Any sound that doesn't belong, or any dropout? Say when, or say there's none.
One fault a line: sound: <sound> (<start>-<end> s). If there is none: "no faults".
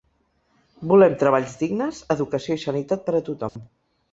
sound: dropout (3.5-3.6 s)